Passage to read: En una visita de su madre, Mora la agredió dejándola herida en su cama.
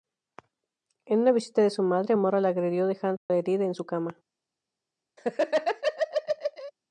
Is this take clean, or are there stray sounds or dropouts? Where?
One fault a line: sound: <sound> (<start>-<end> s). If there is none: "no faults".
sound: dropout (3.2-3.3 s)
sound: laugh (5.2-6.7 s)